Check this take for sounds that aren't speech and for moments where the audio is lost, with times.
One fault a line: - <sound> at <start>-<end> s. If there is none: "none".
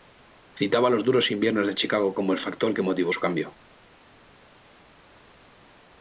none